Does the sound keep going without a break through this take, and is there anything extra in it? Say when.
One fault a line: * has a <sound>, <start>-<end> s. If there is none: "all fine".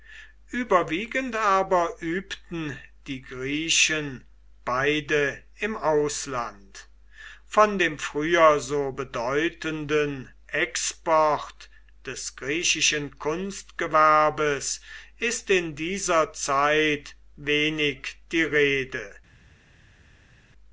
all fine